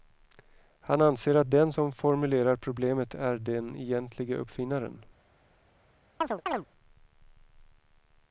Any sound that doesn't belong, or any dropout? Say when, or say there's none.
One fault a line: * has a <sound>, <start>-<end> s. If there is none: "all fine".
* has a chirp, 6.2-6.7 s